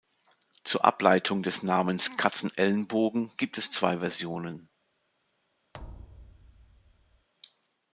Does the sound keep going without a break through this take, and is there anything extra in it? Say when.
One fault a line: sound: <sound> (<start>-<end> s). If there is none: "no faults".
sound: thud (5.7-7.3 s)